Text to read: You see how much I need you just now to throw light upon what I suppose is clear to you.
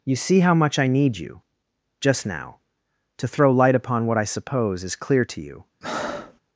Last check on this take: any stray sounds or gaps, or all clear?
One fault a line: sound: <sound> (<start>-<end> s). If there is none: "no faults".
sound: breath (5.8-6.4 s)